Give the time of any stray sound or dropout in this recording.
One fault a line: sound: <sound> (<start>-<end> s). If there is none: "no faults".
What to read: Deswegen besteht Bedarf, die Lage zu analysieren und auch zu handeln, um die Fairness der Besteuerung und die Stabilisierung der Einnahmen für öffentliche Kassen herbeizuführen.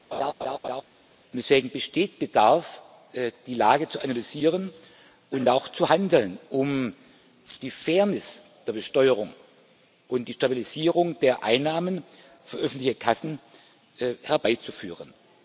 sound: laugh (0.1-0.8 s)